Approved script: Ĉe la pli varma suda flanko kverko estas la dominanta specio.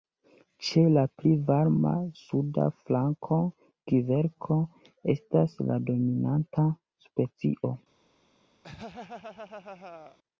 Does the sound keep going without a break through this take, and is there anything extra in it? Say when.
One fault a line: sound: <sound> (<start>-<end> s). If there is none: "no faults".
sound: laugh (8.6-10.2 s)